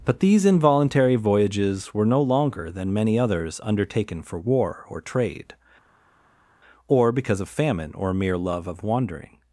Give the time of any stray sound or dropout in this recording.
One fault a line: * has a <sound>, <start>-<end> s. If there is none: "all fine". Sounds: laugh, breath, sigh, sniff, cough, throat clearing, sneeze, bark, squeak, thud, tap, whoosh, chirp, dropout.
all fine